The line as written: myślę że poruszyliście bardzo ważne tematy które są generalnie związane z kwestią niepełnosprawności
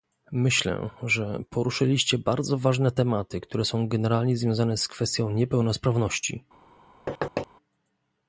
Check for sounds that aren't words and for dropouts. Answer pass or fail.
fail